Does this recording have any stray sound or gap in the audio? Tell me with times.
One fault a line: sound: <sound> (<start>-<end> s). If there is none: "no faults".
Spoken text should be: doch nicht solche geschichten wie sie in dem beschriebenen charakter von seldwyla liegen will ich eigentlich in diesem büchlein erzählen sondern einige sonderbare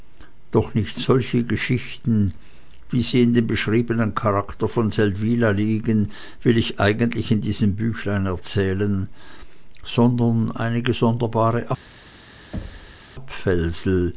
sound: thud (12.5-13.0 s)